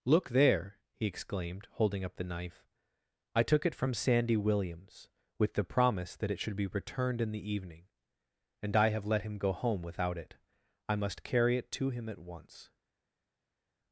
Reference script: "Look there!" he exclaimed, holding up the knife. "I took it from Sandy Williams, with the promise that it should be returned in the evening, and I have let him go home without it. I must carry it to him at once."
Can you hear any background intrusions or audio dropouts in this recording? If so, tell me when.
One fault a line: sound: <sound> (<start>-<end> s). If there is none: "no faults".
no faults